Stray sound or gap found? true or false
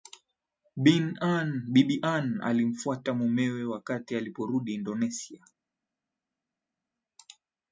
false